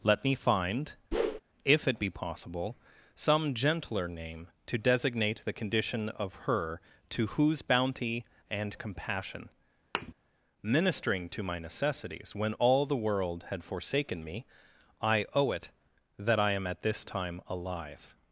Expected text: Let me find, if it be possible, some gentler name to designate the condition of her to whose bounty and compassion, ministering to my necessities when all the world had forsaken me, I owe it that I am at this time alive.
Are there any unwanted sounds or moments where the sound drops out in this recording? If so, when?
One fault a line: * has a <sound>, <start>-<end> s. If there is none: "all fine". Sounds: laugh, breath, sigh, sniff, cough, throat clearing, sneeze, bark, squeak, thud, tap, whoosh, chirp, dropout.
* has a whoosh, 1.1-1.4 s
* has a thud, 9.9-10.1 s